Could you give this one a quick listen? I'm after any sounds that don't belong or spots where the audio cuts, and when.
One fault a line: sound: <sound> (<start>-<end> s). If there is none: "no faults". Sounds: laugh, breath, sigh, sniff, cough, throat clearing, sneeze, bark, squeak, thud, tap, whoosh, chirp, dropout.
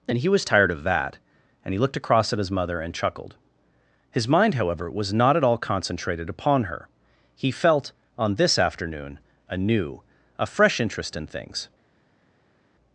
no faults